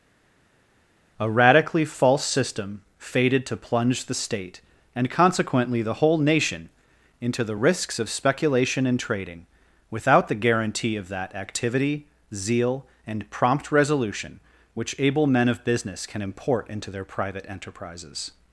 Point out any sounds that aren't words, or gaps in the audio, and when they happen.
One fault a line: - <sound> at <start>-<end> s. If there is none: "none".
none